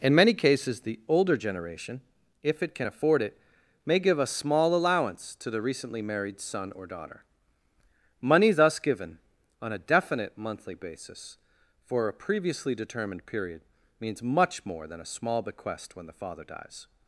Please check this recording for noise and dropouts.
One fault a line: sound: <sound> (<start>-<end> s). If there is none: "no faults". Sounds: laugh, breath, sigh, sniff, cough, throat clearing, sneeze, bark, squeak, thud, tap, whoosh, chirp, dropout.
no faults